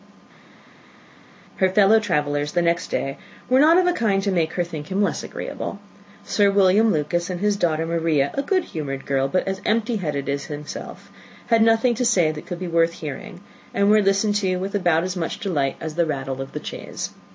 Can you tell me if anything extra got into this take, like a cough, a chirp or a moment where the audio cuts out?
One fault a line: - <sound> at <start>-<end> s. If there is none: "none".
none